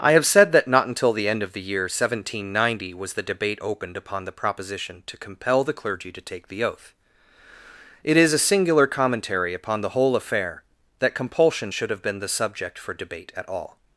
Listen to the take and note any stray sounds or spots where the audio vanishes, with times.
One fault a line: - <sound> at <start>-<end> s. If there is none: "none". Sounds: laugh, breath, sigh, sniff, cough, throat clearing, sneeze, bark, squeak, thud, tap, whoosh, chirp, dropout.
none